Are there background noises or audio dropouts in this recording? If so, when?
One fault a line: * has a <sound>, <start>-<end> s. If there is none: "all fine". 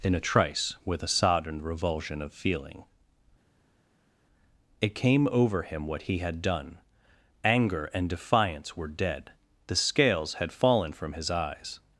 all fine